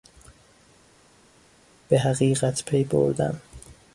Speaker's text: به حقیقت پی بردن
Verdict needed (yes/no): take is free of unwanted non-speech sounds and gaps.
yes